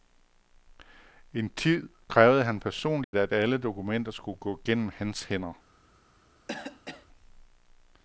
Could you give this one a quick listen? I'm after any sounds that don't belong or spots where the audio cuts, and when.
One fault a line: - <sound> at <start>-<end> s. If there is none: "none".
- dropout at 3.0-3.1 s
- cough at 6.5-7.1 s